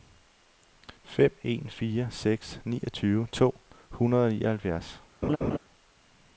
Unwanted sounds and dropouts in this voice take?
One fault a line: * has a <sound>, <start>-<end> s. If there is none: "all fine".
* has a laugh, 5.2-5.6 s